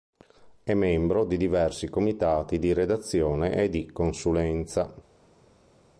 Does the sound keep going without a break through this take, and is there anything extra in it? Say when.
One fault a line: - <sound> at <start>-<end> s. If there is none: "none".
none